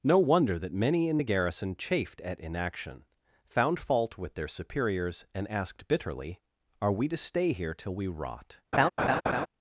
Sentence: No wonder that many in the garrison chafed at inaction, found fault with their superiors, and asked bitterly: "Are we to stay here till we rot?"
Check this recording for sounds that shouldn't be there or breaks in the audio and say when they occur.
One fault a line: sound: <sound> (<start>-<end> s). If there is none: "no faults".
sound: laugh (8.7-9.5 s)